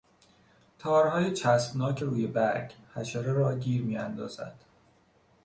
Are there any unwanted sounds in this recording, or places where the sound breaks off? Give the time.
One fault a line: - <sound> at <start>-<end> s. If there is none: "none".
none